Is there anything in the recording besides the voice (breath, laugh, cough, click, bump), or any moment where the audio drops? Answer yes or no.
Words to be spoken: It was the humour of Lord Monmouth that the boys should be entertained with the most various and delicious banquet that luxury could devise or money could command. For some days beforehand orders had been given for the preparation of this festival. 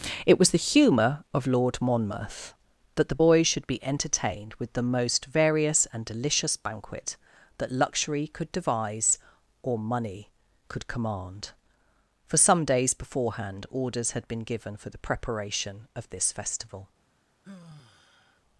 yes